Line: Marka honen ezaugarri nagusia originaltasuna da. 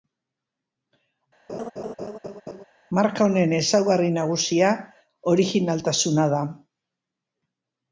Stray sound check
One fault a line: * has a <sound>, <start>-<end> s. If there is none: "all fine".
* has a laugh, 1.5-2.6 s